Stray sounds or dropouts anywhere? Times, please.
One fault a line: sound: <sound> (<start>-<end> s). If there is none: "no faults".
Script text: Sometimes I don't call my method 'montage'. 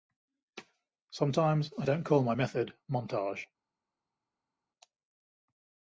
no faults